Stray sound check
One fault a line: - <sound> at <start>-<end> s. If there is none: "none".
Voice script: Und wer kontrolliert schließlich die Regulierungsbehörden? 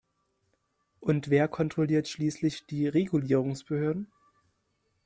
none